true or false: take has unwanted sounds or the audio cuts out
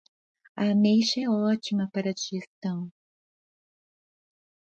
false